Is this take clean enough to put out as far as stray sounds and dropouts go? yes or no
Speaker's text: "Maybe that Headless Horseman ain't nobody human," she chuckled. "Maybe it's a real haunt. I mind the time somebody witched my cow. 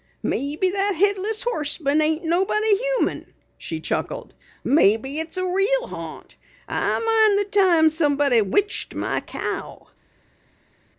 yes